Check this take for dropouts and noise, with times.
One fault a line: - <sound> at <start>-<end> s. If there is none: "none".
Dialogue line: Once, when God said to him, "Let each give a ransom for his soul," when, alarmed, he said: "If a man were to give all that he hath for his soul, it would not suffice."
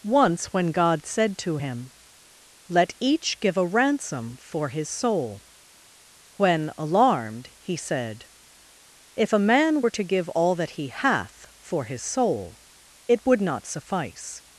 none